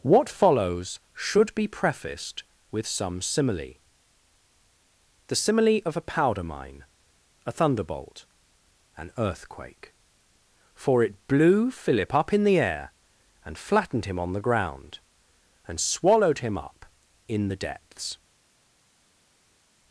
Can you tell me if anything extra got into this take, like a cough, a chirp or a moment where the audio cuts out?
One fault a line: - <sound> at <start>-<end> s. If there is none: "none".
none